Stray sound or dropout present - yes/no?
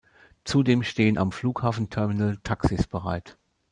no